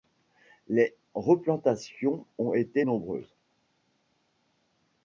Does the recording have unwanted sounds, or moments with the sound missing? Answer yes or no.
no